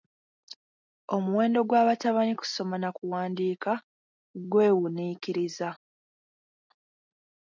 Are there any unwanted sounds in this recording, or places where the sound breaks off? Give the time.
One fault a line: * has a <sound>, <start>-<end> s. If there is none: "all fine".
all fine